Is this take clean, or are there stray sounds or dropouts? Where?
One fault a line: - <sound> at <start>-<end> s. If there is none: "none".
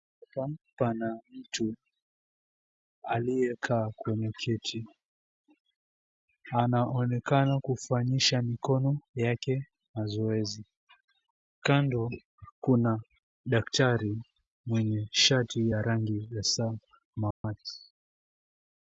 - dropout at 17.3-17.4 s